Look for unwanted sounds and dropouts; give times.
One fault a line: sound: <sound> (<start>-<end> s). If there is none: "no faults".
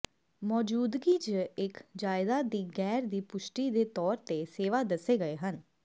no faults